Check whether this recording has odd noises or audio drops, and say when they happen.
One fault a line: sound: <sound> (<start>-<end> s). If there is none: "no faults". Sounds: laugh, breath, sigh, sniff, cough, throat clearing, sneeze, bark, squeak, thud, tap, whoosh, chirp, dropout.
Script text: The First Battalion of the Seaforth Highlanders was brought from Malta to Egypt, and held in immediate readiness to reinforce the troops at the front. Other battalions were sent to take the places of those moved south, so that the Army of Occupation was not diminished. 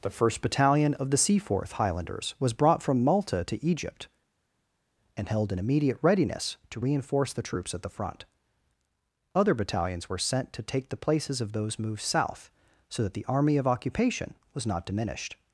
no faults